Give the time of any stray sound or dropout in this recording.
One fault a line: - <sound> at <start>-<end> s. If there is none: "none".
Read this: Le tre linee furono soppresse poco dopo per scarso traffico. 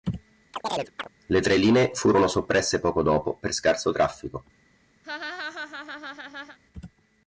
- chirp at 0.5-1.1 s
- laugh at 5.0-6.6 s